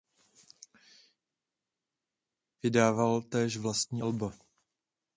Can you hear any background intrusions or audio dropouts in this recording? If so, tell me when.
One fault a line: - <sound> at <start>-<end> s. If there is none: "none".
none